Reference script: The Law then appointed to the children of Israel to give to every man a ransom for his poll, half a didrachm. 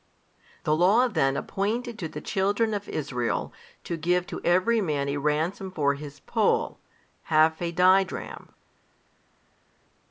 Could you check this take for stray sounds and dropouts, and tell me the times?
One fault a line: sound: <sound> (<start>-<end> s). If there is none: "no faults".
no faults